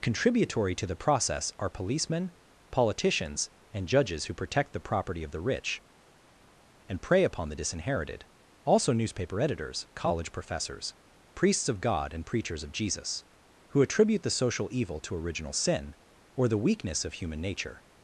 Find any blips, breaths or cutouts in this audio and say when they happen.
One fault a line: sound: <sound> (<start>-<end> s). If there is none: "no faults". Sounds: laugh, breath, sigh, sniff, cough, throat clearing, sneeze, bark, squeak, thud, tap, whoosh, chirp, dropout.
no faults